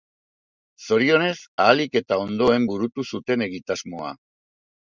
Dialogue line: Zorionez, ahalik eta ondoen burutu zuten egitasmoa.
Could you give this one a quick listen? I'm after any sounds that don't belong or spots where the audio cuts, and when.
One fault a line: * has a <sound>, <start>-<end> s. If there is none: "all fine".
all fine